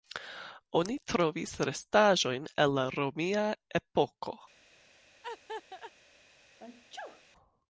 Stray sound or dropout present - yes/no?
yes